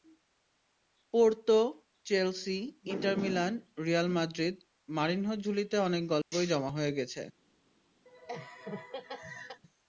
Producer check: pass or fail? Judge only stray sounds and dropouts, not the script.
fail